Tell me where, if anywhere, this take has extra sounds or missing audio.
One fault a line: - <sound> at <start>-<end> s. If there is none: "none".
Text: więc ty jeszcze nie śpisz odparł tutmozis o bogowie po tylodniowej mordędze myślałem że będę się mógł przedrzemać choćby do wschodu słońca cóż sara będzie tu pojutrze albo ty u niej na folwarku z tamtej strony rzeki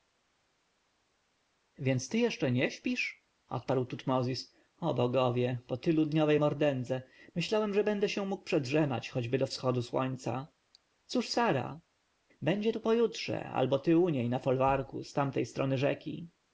none